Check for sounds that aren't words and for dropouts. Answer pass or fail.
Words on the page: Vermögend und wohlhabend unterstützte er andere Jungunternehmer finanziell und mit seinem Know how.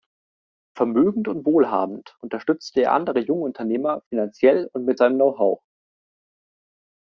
pass